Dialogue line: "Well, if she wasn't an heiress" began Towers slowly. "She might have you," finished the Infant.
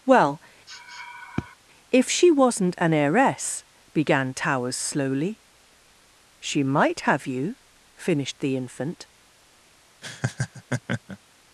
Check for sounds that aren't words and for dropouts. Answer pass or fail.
fail